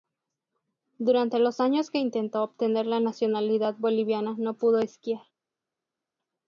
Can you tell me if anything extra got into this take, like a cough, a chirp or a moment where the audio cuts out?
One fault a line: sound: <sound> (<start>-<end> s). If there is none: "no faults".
no faults